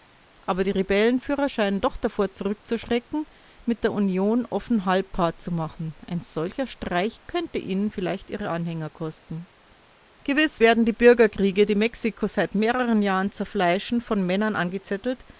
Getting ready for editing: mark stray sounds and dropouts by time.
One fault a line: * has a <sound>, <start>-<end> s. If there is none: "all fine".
all fine